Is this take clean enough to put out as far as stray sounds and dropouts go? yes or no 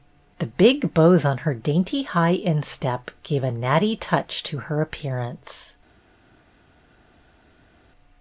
yes